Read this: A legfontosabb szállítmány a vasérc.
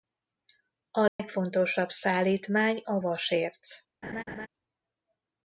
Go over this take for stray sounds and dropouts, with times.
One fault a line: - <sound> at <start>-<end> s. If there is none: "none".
- dropout at 1.1-1.2 s
- laugh at 4.0-4.5 s